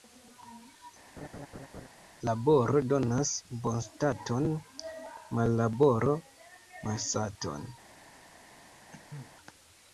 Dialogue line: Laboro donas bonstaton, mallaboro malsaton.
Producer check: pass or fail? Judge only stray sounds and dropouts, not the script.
fail